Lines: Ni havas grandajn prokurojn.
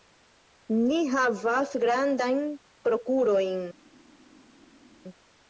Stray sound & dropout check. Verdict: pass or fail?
pass